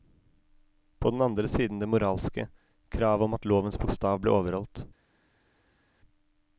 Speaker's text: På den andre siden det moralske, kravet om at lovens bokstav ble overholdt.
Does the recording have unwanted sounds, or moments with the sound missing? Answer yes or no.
no